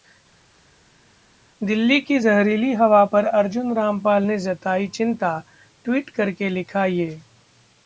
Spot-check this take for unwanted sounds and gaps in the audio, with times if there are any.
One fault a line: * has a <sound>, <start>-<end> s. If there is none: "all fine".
all fine